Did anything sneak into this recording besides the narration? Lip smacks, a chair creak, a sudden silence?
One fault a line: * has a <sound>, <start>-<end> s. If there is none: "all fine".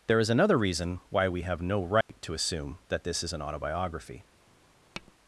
* has a dropout, 2.0-2.1 s
* has a tap, 4.9-5.1 s